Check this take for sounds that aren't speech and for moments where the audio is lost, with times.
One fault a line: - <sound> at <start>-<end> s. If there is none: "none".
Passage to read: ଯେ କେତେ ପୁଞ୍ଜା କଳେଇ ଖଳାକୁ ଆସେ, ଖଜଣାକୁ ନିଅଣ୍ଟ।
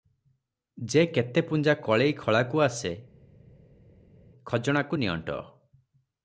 none